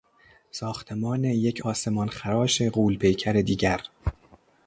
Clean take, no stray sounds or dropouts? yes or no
yes